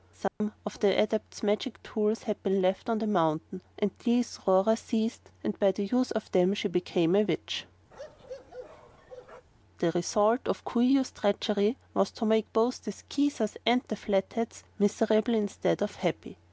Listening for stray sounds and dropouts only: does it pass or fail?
fail